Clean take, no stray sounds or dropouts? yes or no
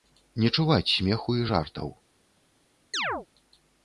no